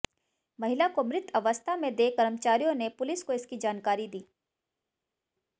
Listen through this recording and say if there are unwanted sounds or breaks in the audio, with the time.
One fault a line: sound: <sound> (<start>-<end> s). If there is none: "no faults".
no faults